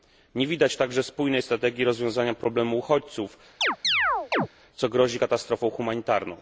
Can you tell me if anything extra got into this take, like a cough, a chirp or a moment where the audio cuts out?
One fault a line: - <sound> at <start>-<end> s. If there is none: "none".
- chirp at 3.6-4.5 s